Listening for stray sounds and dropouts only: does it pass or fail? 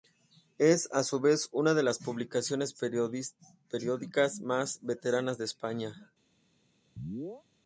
fail